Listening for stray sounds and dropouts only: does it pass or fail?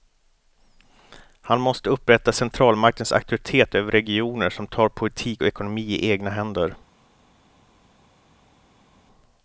pass